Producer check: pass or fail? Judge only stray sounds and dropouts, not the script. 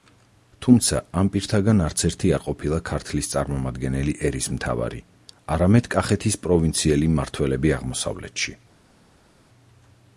pass